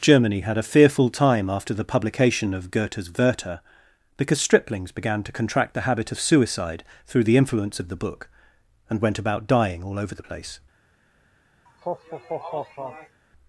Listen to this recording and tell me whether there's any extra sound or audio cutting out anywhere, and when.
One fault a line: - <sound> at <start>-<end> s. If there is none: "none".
- laugh at 11.7-13.2 s